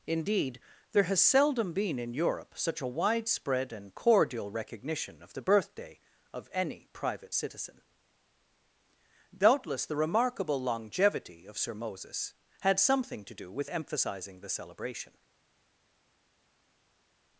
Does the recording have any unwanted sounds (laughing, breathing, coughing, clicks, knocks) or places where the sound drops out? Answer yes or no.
no